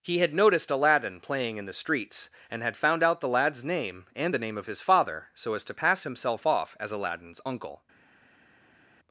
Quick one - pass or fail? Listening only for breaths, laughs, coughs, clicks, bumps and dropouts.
pass